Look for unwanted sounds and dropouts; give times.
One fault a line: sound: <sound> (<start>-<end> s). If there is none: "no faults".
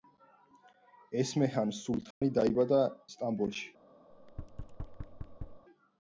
sound: dropout (2.1-2.2 s)
sound: thud (4.1-5.7 s)